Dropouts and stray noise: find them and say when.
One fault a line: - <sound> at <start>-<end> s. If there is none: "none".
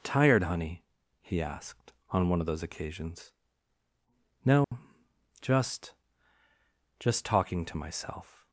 - dropout at 4.6-4.7 s